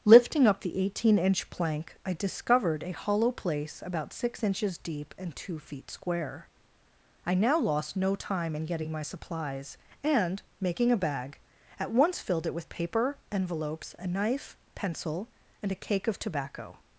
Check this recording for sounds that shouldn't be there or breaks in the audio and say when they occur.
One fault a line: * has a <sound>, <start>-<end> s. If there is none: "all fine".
all fine